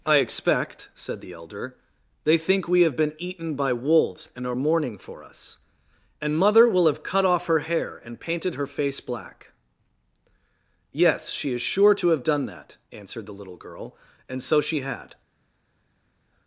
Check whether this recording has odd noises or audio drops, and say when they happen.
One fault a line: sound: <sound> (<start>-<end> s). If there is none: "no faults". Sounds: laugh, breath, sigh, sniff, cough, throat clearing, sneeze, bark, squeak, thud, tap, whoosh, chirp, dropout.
no faults